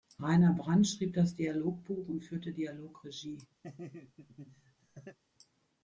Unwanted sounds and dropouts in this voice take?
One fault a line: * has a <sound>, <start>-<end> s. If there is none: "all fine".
* has a laugh, 3.6-5.2 s